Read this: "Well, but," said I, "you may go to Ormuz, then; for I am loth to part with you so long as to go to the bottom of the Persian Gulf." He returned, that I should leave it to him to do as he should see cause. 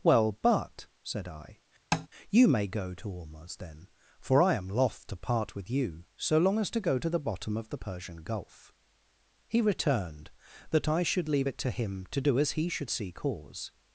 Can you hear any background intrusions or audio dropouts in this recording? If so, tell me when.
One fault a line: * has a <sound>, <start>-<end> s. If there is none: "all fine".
* has a tap, 1.9-2.1 s